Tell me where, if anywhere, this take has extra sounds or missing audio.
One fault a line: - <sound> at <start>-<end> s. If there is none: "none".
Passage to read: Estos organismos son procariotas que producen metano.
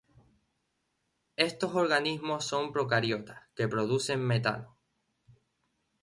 none